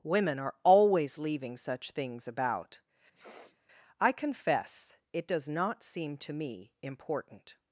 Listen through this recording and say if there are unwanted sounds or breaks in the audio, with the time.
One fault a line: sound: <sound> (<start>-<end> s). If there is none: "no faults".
sound: sniff (3.1-3.6 s)